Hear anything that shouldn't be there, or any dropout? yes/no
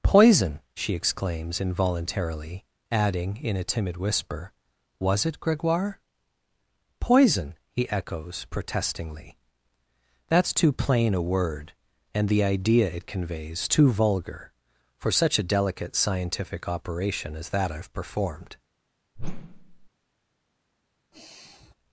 yes